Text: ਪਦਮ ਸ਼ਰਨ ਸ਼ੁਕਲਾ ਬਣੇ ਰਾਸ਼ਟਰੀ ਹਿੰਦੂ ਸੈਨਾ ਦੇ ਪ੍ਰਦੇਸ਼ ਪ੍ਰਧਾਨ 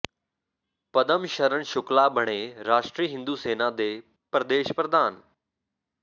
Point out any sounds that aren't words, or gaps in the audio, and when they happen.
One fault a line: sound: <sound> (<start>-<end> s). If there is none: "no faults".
no faults